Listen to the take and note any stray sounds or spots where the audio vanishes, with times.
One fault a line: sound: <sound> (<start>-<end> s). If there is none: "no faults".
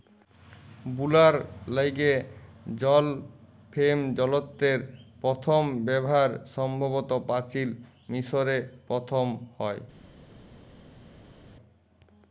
no faults